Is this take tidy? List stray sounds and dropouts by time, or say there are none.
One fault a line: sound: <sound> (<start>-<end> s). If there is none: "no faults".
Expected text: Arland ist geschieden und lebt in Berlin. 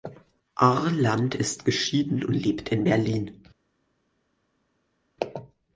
no faults